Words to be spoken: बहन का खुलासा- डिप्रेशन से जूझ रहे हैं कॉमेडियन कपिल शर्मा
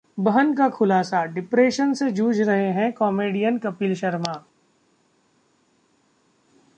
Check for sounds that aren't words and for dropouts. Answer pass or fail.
pass